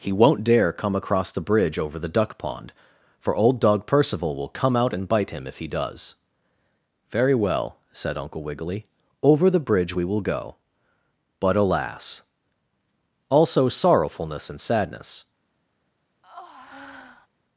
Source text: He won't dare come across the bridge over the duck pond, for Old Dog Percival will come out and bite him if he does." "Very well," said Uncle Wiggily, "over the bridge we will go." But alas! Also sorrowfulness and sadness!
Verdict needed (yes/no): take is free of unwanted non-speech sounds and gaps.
no